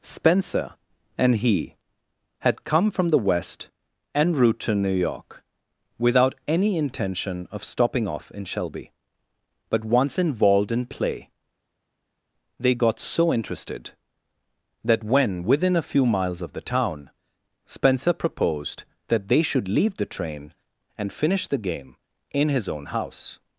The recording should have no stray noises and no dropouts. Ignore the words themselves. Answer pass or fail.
pass